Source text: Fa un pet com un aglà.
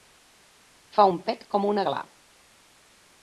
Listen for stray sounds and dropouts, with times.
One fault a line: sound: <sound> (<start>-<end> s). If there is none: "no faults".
no faults